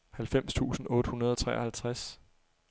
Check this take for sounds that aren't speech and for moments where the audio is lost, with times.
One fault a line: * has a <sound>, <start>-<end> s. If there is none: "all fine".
all fine